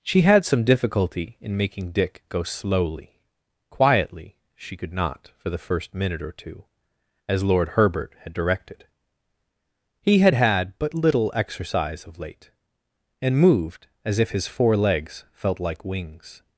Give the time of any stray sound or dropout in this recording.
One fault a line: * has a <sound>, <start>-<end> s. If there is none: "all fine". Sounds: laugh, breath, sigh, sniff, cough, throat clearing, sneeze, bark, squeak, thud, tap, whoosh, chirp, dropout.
all fine